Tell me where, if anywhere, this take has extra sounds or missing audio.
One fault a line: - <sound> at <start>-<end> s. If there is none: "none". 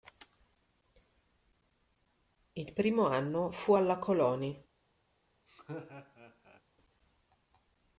- laugh at 5.5-6.6 s